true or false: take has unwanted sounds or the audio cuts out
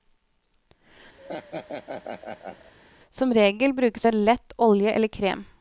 true